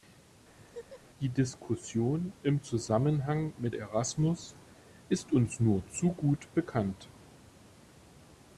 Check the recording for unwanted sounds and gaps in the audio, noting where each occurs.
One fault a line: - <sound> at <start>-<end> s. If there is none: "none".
- laugh at 0.6-1.0 s